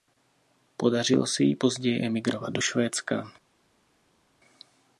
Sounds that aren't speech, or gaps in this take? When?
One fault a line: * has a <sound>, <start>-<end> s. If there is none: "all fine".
all fine